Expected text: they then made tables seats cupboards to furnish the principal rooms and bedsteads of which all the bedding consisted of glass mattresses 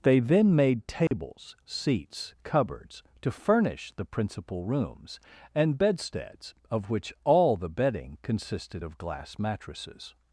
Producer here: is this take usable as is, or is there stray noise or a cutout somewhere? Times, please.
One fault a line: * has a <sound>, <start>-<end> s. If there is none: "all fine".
* has a dropout, 1.1-1.1 s